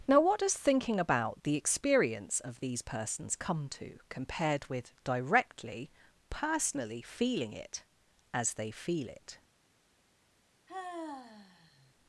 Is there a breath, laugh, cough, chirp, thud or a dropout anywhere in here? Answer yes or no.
yes